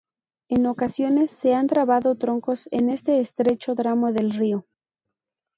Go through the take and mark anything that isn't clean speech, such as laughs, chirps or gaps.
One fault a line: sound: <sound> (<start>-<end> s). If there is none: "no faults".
no faults